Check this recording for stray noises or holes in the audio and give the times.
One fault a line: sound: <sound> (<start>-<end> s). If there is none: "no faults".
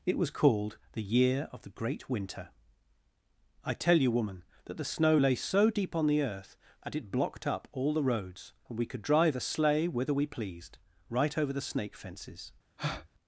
sound: breath (12.8-13.1 s)